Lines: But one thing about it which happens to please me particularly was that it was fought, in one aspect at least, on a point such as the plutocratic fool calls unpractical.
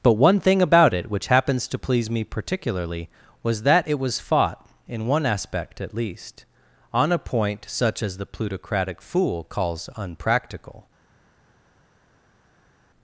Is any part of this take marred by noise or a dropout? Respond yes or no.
no